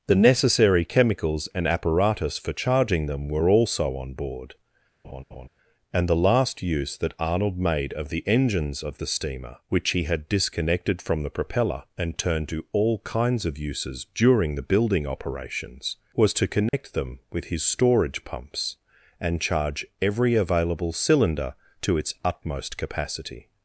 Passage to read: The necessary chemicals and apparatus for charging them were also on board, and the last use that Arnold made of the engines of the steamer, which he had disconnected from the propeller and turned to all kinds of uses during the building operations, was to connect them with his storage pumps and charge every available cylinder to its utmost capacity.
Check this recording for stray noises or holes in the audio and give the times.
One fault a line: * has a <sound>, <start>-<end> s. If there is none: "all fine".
* has a laugh, 5.0-5.5 s
* has a dropout, 16.7-16.7 s